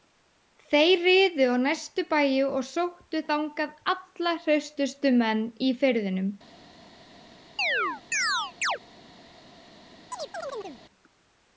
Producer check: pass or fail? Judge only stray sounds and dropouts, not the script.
fail